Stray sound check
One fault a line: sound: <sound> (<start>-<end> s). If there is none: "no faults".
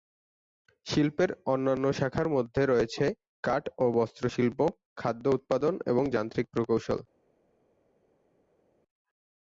no faults